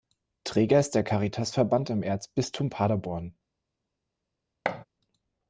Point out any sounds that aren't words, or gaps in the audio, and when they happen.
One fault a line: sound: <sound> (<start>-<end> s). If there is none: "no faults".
sound: thud (4.6-4.8 s)